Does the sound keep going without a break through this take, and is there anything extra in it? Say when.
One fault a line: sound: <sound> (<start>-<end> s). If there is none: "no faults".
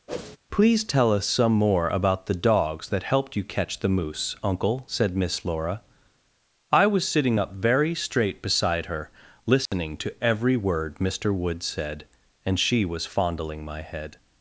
sound: whoosh (0.1-0.4 s)
sound: dropout (9.7-9.7 s)